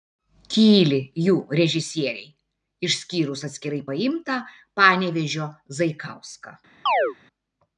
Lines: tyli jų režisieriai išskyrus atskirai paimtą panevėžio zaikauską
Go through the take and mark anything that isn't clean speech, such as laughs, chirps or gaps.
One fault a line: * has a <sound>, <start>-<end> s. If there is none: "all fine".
* has a chirp, 6.9-7.2 s